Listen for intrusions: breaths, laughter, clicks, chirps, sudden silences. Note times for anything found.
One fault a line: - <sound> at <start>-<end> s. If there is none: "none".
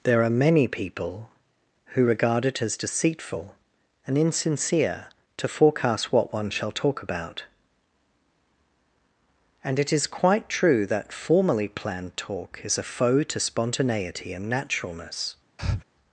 - breath at 15.6-15.8 s